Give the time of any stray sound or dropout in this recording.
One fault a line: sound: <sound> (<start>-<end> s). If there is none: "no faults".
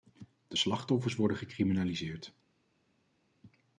no faults